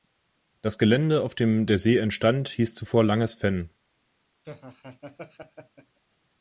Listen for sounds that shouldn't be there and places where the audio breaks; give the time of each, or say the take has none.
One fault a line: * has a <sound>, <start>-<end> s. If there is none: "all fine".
* has a laugh, 4.4-6.0 s